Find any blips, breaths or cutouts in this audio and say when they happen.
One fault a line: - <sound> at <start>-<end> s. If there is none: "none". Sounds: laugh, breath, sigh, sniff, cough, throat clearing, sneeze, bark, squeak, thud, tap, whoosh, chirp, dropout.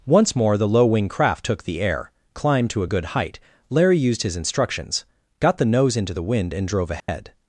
- dropout at 7.0-7.1 s